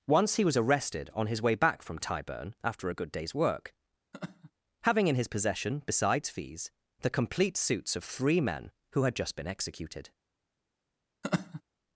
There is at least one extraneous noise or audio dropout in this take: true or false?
true